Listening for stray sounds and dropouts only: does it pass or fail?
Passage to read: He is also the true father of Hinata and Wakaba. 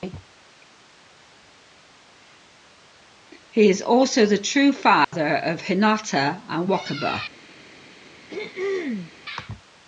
fail